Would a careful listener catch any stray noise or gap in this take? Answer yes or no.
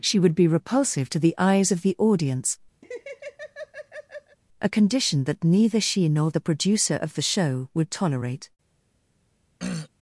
yes